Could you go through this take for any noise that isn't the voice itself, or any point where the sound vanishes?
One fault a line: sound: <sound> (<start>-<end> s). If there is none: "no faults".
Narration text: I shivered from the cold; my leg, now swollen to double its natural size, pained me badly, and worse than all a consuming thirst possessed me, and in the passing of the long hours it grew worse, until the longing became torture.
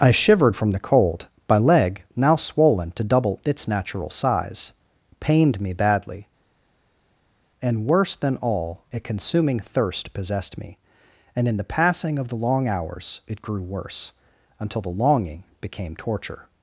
no faults